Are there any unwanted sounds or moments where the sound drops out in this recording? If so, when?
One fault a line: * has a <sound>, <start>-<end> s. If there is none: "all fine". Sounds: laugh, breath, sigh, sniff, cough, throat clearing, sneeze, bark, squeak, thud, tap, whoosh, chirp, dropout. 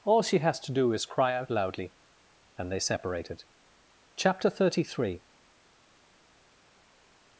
all fine